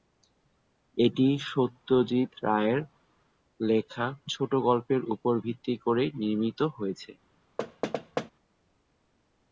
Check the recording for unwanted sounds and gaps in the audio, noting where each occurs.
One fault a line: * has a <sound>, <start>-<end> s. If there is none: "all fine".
* has a thud, 7.6-8.3 s